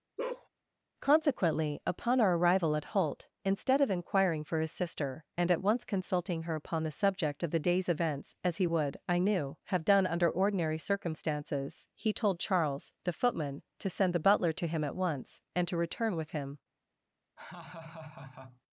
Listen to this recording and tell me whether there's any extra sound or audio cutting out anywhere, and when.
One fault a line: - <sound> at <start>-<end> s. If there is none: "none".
- bark at 0.2-0.5 s
- laugh at 17.4-18.6 s